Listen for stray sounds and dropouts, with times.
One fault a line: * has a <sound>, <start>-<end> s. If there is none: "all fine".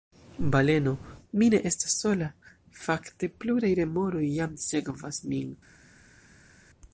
all fine